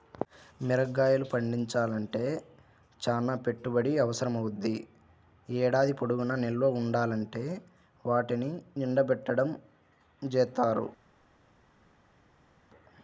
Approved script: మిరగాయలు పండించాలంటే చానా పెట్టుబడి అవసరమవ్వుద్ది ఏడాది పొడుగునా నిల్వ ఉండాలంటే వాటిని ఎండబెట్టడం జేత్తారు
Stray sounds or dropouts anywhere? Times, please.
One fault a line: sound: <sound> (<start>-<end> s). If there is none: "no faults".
no faults